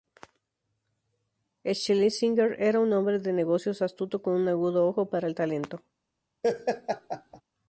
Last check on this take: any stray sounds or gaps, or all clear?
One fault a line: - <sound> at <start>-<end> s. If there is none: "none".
- laugh at 6.4-7.4 s